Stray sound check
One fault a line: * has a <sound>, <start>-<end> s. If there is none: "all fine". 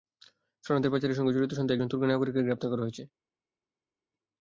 all fine